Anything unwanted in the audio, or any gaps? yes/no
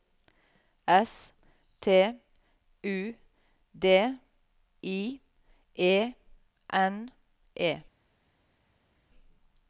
no